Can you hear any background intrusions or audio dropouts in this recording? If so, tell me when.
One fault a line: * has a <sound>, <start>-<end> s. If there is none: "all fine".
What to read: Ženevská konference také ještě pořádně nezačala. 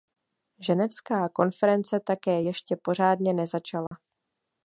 * has a dropout, 3.9-3.9 s